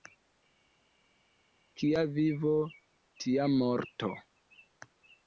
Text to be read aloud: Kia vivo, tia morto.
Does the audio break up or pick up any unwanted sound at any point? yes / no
no